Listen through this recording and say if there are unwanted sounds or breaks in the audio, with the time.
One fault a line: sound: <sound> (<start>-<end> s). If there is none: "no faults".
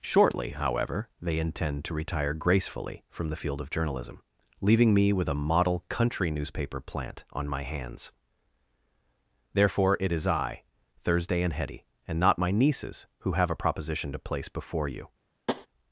sound: tap (15.5-15.7 s)